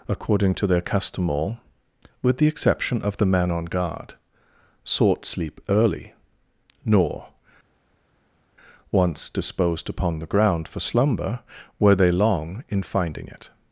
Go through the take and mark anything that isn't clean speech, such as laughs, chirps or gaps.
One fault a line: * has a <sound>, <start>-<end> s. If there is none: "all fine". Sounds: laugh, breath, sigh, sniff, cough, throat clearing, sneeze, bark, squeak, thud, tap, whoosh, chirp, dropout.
all fine